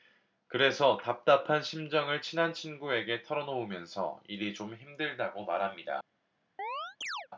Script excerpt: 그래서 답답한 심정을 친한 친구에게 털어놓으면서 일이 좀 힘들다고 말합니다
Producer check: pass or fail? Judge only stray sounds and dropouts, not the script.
fail